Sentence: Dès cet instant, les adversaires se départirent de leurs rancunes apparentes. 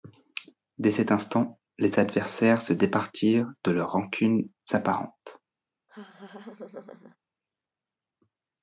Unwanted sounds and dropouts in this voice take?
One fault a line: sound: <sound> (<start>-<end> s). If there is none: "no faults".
sound: laugh (5.9-7.2 s)